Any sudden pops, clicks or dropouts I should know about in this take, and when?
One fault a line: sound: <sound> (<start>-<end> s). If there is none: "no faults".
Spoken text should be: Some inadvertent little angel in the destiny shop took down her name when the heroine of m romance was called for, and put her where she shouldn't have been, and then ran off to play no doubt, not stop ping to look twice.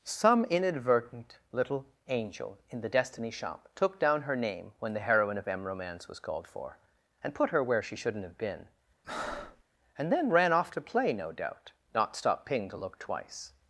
sound: breath (9.0-9.6 s)